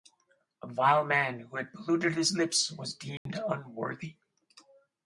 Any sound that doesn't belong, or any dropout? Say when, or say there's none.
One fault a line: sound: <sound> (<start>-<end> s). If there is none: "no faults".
sound: dropout (3.2-3.3 s)